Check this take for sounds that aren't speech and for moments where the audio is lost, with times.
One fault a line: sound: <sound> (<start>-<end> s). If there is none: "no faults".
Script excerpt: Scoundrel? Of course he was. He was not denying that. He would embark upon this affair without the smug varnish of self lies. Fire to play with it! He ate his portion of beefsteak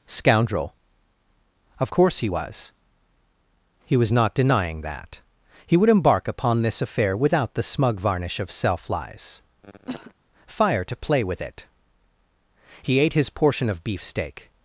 sound: cough (9.6-10.1 s)